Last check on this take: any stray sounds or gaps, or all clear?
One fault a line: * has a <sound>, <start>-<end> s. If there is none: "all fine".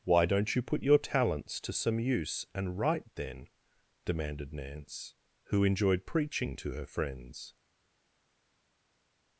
all fine